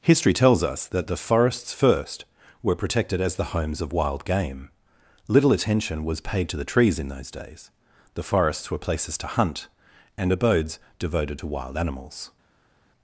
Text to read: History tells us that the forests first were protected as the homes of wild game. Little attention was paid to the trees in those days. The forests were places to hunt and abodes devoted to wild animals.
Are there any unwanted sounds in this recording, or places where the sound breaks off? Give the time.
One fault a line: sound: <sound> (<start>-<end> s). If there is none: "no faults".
no faults